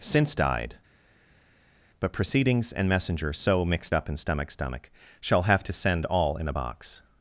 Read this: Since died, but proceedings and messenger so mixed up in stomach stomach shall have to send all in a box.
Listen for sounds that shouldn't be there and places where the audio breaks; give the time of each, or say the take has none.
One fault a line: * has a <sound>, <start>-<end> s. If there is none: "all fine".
all fine